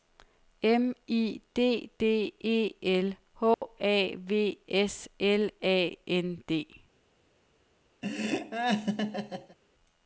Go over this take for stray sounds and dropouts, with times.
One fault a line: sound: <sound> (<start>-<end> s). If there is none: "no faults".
sound: dropout (3.5-3.6 s)
sound: laugh (8.0-9.6 s)